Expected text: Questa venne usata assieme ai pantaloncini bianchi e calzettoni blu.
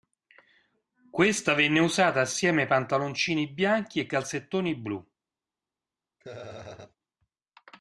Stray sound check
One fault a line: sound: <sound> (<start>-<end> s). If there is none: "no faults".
sound: laugh (6.2-6.9 s)